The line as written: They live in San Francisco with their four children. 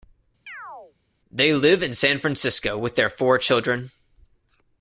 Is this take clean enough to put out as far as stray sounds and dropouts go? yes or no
no